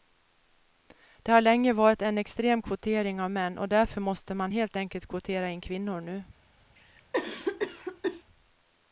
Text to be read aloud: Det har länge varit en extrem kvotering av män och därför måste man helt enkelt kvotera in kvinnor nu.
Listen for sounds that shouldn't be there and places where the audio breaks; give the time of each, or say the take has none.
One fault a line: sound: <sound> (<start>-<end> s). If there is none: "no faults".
sound: cough (6.8-8.2 s)